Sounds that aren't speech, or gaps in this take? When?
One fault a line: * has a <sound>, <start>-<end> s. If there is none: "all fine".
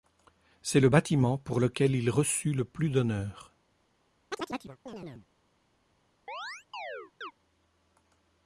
* has a chirp, 4.3-5.3 s
* has a chirp, 6.3-7.3 s